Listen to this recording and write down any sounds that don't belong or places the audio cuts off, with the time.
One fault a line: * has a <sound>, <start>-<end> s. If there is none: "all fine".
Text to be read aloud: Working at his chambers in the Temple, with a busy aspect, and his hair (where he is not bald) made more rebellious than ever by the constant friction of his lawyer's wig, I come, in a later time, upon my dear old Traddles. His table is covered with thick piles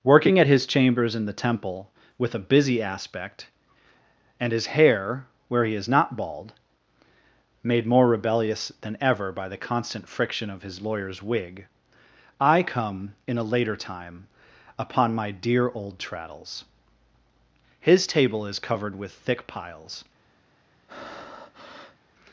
* has a breath, 20.9-22.0 s